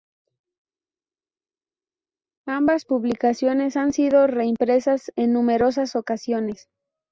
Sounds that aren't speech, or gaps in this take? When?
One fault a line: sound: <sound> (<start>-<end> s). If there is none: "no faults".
no faults